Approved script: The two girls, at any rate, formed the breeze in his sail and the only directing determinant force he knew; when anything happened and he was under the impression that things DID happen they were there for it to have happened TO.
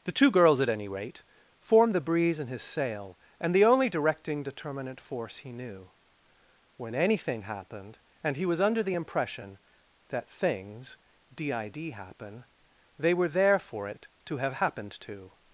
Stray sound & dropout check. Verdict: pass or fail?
pass